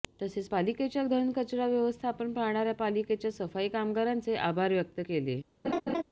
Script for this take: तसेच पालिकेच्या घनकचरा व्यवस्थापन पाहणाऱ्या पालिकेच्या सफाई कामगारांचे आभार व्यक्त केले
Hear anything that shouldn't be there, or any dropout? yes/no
yes